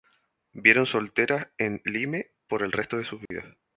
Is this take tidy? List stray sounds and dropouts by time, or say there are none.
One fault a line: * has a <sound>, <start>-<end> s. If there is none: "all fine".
* has a dropout, 3.3-3.3 s